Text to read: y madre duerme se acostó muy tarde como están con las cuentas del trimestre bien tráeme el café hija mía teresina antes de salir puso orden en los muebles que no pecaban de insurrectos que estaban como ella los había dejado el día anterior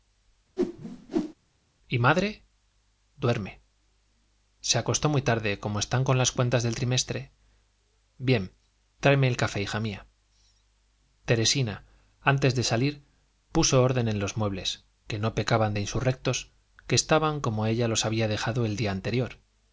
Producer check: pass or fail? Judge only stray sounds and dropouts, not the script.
fail